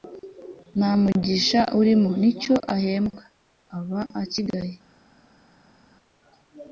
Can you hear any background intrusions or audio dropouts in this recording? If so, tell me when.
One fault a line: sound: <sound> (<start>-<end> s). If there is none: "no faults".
no faults